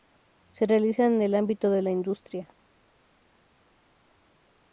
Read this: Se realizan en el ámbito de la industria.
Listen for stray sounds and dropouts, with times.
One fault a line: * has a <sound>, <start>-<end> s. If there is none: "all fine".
all fine